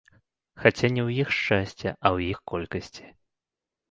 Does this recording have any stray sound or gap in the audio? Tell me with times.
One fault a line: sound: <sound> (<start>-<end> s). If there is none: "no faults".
no faults